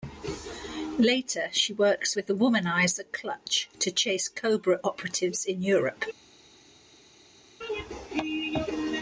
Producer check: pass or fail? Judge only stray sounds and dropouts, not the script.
pass